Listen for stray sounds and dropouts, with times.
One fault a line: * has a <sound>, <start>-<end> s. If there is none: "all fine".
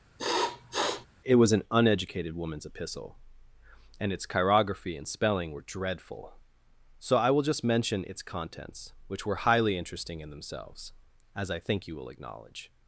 * has a sniff, 0.2-1.1 s